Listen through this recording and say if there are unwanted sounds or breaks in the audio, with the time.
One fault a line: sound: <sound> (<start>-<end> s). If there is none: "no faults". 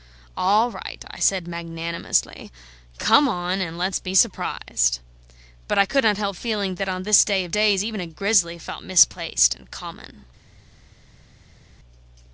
no faults